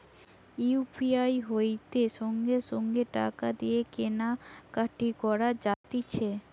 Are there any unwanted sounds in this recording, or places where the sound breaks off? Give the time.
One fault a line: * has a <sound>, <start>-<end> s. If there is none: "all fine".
* has a dropout, 5.7-5.8 s